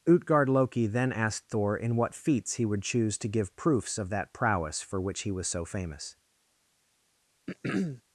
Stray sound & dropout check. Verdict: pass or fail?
fail